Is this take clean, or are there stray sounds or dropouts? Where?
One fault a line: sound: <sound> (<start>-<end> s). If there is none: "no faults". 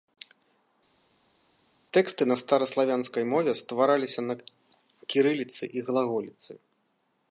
no faults